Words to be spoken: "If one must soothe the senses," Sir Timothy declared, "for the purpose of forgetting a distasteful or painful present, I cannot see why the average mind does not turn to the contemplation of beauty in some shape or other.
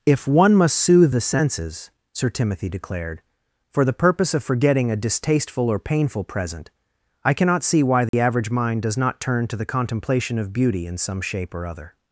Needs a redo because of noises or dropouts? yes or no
yes